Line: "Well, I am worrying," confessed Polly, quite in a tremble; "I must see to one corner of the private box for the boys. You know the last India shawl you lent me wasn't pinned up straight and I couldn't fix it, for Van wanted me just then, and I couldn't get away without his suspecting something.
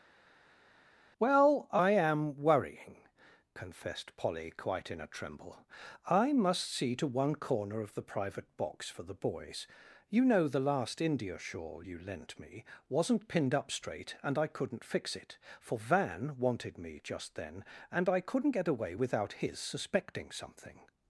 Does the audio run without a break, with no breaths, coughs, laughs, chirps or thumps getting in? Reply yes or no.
yes